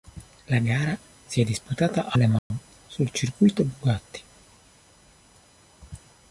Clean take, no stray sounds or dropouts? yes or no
no